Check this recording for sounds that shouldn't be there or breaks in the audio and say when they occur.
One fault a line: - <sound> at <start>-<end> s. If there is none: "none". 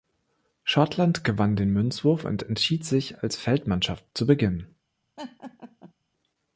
- laugh at 5.2-5.9 s